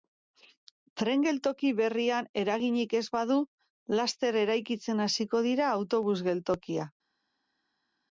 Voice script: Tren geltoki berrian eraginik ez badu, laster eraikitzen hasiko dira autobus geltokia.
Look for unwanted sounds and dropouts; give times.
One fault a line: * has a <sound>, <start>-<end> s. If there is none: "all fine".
all fine